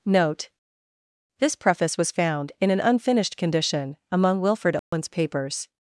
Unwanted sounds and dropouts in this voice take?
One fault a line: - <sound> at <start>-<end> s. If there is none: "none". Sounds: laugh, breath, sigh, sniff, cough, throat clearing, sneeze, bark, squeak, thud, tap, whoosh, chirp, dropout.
- dropout at 4.8-4.9 s